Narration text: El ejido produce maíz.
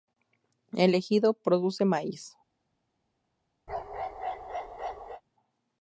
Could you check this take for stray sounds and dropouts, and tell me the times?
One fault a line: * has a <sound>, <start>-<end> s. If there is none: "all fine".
* has a bark, 3.7-5.2 s